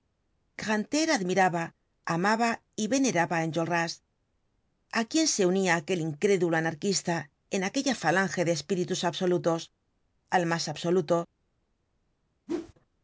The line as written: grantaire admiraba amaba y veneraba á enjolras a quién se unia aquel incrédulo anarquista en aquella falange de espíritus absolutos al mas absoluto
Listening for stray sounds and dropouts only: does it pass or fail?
fail